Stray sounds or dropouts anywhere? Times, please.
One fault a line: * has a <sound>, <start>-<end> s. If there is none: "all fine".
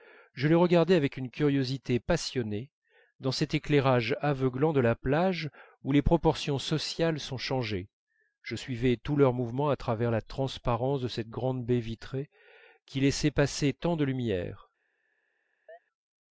* has a chirp, 15.7-15.8 s